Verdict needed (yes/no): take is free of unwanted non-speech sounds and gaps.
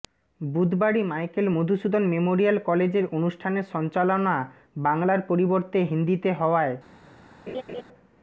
no